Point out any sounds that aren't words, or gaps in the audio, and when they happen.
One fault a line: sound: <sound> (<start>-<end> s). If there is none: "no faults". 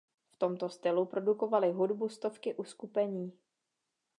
no faults